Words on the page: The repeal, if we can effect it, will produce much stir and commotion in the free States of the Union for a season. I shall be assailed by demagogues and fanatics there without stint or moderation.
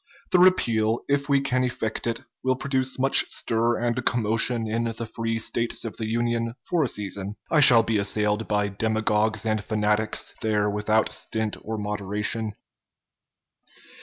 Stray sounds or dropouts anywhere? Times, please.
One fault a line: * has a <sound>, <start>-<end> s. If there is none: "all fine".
all fine